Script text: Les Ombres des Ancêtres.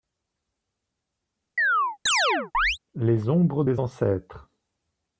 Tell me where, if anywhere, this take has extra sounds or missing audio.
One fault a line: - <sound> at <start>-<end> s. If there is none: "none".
- chirp at 1.6-2.8 s